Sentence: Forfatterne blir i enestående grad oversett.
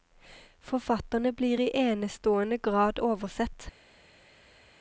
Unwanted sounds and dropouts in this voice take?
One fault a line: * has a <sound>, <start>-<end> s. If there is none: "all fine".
all fine